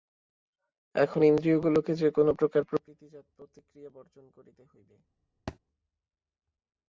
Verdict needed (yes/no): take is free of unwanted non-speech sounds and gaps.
no